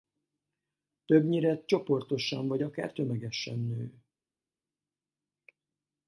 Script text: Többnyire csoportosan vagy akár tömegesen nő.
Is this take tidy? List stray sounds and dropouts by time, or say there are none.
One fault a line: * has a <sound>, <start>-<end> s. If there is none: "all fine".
all fine